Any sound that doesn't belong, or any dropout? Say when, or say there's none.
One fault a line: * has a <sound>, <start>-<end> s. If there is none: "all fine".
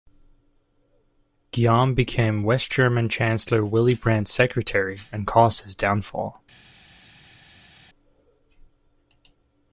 all fine